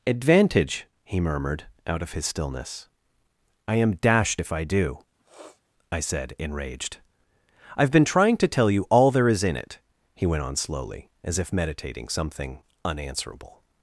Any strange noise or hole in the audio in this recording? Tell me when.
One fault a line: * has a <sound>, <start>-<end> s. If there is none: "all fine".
* has a sniff, 5.2-5.6 s